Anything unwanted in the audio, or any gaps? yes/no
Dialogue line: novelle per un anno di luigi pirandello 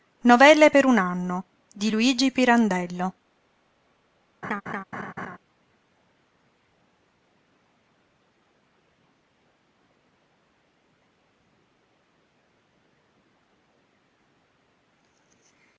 yes